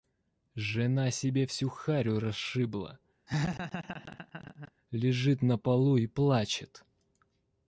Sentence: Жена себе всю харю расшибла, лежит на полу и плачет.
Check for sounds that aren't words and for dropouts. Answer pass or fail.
fail